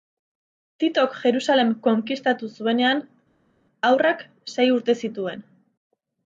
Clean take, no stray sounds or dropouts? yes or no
yes